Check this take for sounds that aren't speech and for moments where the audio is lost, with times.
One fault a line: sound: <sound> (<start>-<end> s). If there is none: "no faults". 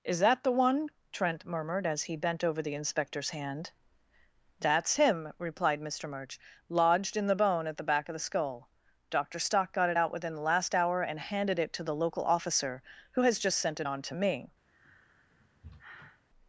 sound: sigh (14.7-16.2 s)